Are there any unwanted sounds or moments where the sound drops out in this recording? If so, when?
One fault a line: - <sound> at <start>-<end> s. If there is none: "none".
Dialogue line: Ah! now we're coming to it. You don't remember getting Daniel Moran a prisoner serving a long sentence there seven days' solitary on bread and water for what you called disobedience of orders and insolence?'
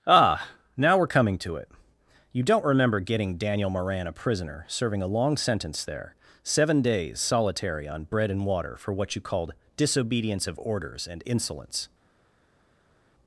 none